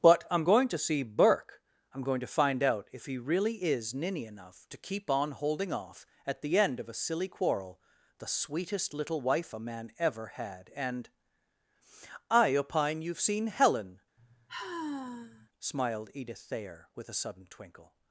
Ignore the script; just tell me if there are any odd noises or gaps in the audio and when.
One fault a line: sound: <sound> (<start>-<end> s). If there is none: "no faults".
sound: sigh (14.2-15.5 s)